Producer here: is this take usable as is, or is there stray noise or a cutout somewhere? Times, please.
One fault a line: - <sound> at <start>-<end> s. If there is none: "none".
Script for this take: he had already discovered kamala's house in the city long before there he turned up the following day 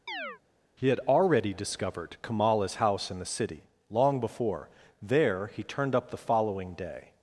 - chirp at 0.1-0.4 s